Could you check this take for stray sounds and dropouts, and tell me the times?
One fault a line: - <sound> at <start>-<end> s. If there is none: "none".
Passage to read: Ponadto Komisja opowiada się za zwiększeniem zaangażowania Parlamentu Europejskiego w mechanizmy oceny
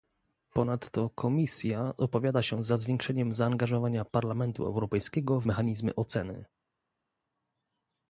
none